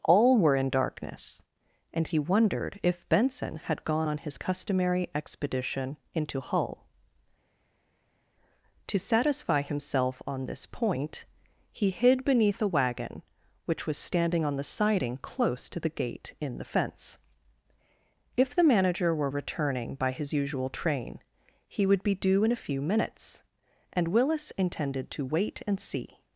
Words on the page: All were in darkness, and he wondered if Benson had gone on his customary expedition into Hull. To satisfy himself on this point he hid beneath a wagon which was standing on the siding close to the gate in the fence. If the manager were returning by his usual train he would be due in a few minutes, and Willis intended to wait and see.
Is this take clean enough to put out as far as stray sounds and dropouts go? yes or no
yes